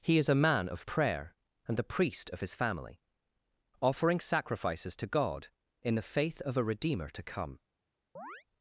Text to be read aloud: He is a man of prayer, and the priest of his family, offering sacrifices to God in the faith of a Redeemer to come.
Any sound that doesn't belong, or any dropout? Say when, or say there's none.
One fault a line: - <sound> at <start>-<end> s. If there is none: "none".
- chirp at 8.2-8.4 s